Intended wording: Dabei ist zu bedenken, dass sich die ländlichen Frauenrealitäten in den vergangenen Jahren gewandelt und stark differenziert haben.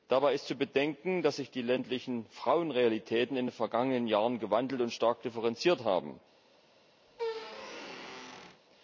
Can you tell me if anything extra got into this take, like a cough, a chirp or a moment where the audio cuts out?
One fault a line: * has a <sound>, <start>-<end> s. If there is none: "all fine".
* has a squeak, 7.1-8.6 s